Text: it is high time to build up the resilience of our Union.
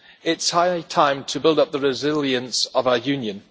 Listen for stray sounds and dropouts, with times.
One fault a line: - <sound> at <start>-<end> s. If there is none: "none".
none